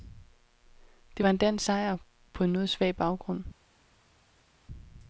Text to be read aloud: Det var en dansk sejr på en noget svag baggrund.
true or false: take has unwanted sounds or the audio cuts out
false